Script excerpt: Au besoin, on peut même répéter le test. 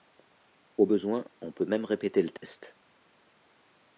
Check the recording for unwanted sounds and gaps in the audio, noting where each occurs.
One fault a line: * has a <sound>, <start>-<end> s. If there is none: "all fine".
* has a dropout, 2.4-2.4 s